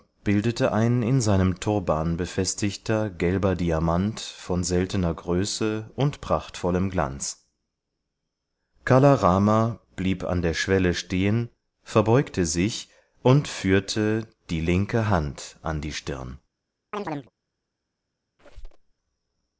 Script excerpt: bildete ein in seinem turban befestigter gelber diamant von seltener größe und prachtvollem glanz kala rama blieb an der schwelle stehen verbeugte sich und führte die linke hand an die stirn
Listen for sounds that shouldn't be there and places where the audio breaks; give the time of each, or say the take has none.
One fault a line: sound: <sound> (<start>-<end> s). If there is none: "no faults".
sound: chirp (16.9-17.3 s)
sound: squeak (18.4-18.9 s)